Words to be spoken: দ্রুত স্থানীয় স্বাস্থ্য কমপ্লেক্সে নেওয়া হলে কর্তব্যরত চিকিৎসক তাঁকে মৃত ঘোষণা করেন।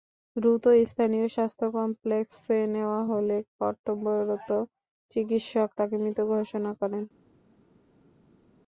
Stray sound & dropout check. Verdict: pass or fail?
pass